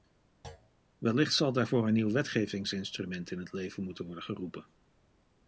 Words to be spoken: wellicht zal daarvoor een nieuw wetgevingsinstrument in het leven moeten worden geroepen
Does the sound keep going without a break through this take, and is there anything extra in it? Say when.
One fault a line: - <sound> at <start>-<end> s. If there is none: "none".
- thud at 0.4-0.7 s